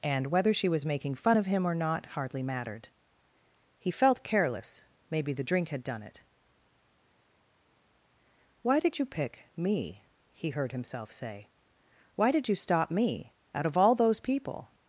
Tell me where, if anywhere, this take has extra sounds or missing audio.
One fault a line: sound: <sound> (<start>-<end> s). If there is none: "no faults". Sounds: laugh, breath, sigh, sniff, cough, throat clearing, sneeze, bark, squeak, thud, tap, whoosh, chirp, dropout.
no faults